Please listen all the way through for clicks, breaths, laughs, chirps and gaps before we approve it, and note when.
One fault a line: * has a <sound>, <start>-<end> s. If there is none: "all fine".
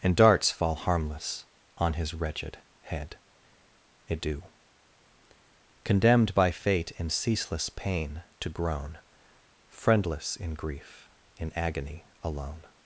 all fine